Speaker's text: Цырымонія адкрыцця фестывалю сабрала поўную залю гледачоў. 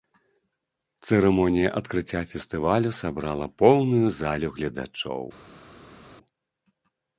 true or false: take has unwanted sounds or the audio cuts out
false